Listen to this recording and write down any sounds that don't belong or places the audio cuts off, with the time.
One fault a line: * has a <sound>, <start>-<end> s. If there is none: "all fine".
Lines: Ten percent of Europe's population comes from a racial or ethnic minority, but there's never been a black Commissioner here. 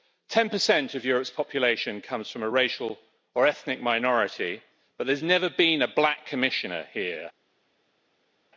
all fine